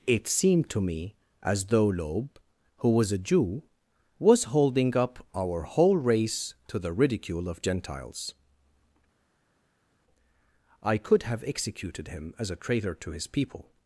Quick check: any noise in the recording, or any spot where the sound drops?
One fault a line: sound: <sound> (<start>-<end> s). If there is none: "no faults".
no faults